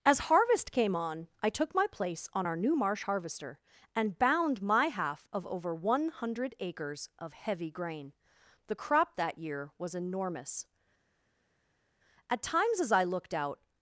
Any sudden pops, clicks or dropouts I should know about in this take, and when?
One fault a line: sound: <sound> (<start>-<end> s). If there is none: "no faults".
no faults